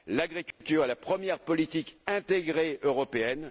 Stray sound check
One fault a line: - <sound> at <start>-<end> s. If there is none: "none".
- dropout at 0.5-0.6 s